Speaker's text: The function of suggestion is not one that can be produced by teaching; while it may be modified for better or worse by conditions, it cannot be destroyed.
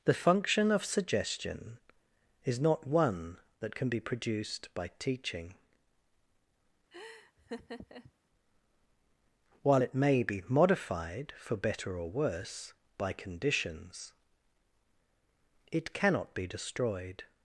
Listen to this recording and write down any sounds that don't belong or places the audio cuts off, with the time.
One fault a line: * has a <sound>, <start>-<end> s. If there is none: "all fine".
* has a laugh, 6.9-8.1 s